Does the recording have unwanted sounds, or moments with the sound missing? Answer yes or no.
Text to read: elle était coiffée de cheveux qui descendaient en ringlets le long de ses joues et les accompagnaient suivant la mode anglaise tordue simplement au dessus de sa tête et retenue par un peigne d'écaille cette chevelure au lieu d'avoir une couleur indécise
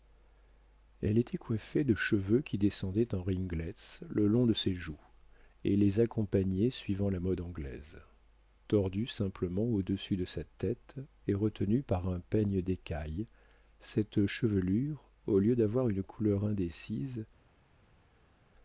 no